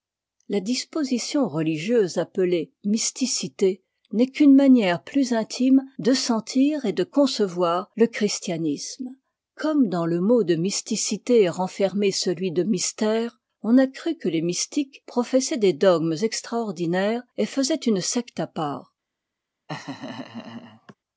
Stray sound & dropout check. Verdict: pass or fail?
fail